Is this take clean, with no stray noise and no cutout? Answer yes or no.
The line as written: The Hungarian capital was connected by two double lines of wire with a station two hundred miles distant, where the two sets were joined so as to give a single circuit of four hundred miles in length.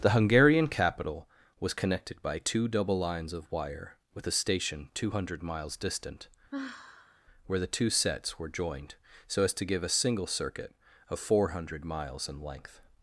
no